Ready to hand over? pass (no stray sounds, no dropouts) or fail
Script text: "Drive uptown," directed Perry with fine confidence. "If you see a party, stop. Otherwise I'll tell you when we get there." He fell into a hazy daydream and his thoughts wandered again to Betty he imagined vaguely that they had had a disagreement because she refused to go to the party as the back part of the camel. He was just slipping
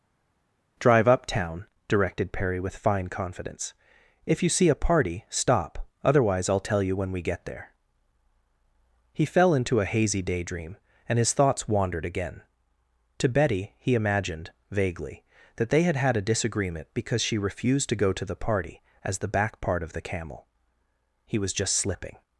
pass